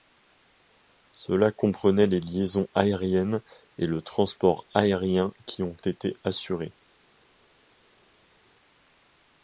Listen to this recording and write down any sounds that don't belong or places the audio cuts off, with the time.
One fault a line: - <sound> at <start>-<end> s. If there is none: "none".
none